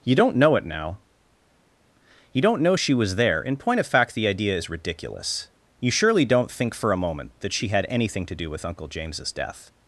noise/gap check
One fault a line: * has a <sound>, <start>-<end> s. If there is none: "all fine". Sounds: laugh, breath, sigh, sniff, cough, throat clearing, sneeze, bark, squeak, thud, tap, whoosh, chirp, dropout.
all fine